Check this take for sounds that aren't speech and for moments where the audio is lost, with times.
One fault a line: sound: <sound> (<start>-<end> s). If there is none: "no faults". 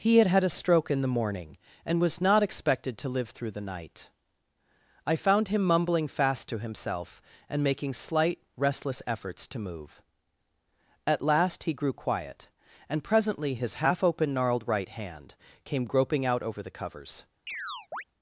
sound: chirp (17.5-18.0 s)